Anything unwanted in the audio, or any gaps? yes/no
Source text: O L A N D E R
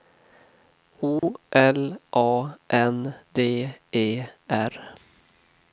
yes